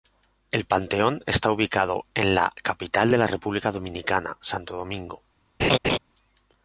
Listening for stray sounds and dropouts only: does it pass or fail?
fail